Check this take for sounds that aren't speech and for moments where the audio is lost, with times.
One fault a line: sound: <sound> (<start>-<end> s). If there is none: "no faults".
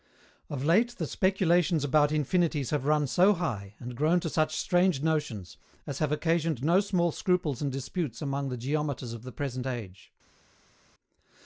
no faults